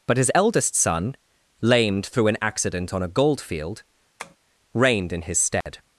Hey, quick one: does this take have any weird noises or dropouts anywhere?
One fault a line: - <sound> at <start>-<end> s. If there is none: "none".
- tap at 4.2-4.4 s
- dropout at 5.6-5.7 s